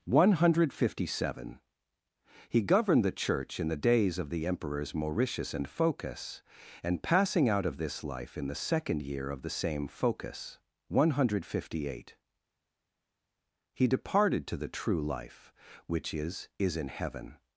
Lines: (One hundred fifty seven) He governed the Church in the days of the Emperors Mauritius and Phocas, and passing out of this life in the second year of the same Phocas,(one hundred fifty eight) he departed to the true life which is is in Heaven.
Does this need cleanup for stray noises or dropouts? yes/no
no